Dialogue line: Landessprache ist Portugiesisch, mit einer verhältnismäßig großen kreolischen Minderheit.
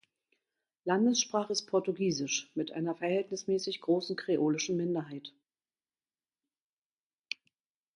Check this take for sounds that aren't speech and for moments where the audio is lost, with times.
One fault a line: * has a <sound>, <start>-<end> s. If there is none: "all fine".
all fine